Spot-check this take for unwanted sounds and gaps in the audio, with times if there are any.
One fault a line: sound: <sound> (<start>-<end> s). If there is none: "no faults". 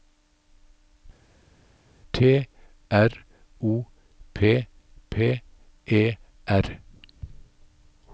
no faults